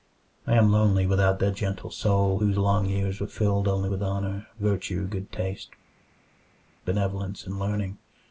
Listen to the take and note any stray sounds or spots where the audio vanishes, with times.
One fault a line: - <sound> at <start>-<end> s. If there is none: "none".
none